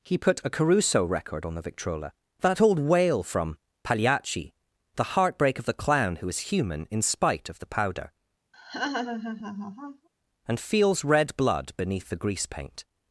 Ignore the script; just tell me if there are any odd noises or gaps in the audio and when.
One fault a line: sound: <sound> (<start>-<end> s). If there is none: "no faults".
sound: laugh (8.5-10.1 s)